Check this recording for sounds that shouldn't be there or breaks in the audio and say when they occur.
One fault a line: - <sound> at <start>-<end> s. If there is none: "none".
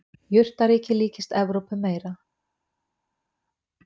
none